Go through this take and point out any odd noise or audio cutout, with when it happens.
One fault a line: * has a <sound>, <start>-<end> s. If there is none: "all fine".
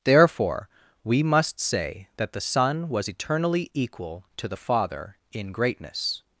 all fine